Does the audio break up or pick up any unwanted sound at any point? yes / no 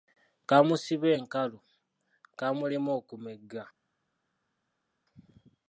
no